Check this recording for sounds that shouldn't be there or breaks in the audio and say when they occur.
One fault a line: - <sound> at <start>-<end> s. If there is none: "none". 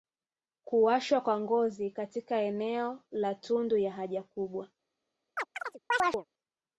- chirp at 5.4-6.3 s